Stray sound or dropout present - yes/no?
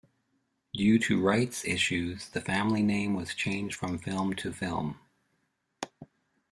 no